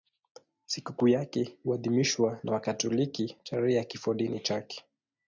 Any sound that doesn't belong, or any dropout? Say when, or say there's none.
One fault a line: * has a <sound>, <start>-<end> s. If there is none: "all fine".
all fine